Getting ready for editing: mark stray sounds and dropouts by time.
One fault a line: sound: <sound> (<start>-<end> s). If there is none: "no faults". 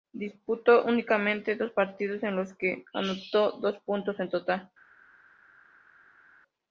no faults